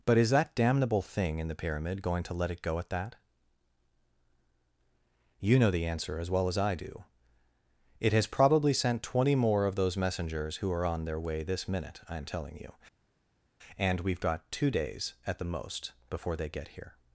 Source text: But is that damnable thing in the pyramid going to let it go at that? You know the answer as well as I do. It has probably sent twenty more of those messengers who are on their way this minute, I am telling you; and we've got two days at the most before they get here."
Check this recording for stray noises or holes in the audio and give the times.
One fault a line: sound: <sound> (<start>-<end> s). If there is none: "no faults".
no faults